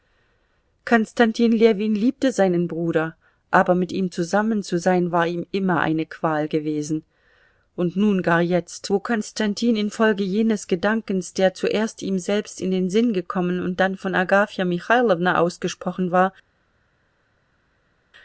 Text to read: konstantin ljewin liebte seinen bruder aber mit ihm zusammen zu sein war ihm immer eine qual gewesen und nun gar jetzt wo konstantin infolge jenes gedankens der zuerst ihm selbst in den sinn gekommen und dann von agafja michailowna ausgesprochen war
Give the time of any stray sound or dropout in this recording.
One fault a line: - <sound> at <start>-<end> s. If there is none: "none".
none